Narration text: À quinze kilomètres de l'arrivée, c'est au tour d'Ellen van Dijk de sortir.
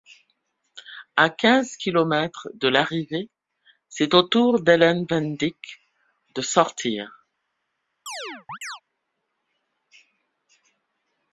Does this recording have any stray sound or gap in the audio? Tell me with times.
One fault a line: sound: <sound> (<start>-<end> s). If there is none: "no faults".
sound: chirp (8.1-8.8 s)